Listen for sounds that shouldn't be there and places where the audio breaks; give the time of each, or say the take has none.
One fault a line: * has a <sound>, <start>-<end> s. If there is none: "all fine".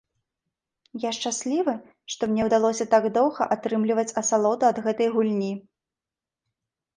all fine